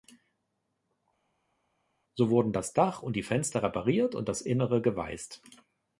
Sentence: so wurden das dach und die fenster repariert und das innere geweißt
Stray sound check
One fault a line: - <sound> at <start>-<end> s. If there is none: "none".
none